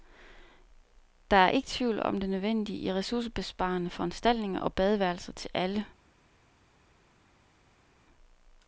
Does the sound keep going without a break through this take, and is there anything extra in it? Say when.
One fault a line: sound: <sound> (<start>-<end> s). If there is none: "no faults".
no faults